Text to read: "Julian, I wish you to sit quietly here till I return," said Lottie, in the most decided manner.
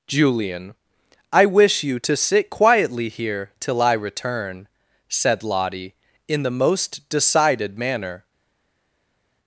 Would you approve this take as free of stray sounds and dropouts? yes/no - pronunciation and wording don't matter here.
yes